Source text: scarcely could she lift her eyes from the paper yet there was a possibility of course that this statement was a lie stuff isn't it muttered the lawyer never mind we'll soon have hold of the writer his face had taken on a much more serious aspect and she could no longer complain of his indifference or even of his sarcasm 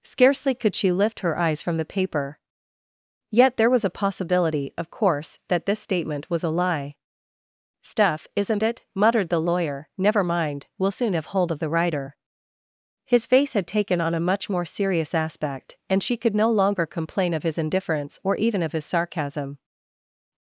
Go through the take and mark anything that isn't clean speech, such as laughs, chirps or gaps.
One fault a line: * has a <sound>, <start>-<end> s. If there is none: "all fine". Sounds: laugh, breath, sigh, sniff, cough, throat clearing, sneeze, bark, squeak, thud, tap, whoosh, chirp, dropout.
all fine